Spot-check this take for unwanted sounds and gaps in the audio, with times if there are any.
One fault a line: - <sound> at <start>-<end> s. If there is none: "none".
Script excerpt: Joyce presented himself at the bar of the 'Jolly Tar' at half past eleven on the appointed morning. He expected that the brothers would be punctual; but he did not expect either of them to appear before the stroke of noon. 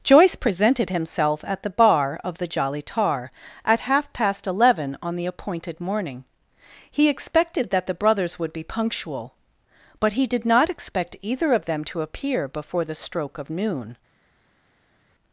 none